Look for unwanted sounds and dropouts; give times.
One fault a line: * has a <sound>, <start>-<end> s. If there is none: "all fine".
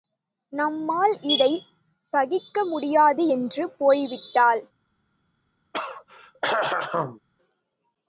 * has a throat clearing, 5.7-7.2 s